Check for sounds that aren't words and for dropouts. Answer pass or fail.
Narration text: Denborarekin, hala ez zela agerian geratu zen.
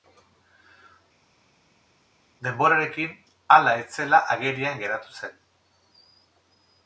pass